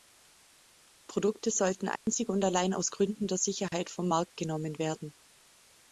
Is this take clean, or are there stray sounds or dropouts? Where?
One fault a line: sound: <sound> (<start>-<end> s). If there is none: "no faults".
sound: dropout (2.0-2.1 s)
sound: dropout (3.7-3.7 s)